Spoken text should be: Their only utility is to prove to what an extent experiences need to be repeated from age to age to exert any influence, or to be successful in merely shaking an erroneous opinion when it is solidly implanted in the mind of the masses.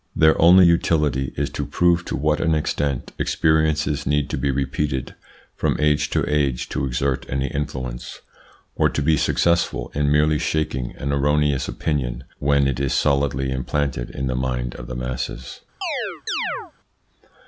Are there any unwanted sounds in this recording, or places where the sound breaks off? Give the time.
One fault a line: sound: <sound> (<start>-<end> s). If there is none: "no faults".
sound: chirp (15.8-16.7 s)